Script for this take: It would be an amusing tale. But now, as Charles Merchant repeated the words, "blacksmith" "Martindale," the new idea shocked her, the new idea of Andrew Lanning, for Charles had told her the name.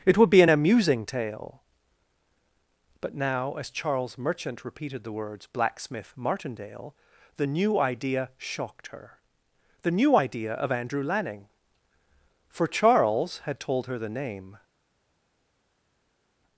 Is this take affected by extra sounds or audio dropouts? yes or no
no